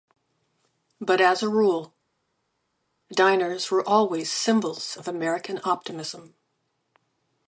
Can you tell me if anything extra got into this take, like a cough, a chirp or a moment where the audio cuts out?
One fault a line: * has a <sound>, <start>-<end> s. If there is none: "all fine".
all fine